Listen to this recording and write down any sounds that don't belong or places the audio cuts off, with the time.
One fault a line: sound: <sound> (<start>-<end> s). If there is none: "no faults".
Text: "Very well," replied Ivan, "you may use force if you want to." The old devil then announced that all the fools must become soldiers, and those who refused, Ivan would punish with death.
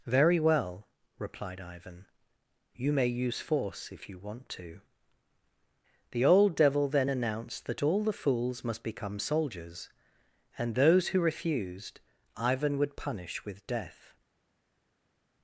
no faults